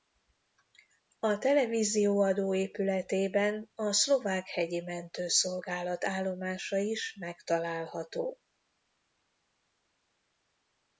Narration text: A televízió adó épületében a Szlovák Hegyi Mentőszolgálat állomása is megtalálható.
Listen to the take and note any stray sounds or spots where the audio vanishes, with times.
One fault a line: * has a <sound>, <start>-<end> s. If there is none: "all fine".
all fine